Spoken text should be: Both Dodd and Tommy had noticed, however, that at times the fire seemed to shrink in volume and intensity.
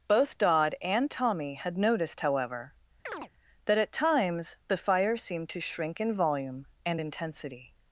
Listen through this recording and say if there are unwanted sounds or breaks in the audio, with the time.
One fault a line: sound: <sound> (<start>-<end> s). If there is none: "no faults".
sound: chirp (3.1-3.3 s)